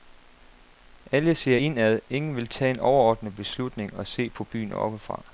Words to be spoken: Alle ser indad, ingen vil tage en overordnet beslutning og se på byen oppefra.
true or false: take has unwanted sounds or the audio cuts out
false